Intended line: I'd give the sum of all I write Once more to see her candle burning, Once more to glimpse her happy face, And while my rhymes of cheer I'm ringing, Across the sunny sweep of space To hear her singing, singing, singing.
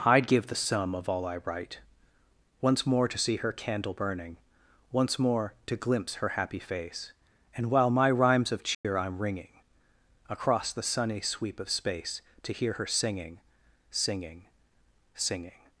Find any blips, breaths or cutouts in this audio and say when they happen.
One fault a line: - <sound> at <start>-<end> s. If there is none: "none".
- dropout at 8.7-8.8 s